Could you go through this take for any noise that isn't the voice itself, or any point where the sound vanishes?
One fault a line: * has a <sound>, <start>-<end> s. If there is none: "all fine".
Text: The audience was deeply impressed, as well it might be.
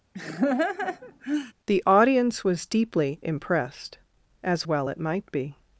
* has a laugh, 0.1-1.5 s